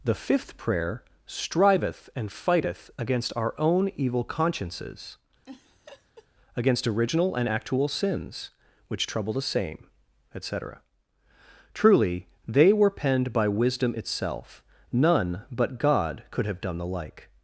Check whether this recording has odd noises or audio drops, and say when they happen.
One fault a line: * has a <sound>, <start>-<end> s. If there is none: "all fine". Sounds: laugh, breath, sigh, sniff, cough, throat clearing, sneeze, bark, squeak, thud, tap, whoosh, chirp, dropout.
* has a laugh, 5.4-6.3 s